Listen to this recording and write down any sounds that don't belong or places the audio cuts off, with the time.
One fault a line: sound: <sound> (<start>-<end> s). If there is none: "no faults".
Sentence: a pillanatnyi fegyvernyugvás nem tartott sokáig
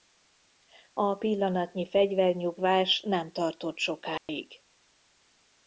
sound: dropout (4.2-4.3 s)